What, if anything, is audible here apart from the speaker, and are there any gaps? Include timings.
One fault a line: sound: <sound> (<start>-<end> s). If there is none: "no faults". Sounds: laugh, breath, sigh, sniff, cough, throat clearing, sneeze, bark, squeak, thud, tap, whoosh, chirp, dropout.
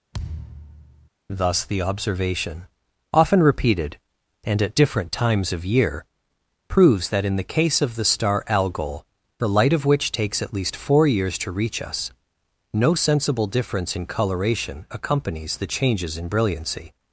sound: thud (0.1-1.1 s)